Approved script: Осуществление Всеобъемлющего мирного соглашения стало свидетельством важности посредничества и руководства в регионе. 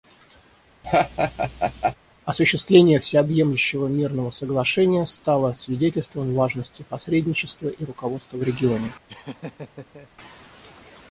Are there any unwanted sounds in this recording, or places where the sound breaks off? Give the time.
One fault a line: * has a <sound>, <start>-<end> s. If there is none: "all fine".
* has a laugh, 0.8-2.0 s
* has a laugh, 9.1-10.1 s